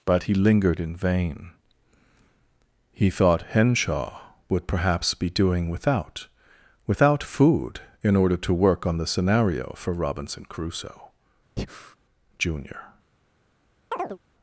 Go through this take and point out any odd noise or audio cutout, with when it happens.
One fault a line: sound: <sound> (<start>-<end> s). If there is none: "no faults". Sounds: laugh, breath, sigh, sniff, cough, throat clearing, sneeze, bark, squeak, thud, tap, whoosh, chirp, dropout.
sound: breath (11.6-12.0 s)
sound: chirp (13.9-14.2 s)